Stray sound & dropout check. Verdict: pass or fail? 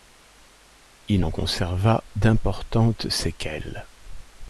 pass